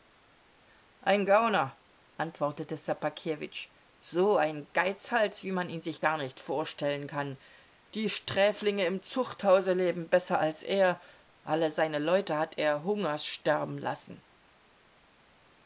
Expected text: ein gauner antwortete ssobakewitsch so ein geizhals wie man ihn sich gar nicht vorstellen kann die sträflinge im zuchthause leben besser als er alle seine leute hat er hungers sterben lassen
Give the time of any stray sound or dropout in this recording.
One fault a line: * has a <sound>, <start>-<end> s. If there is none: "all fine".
all fine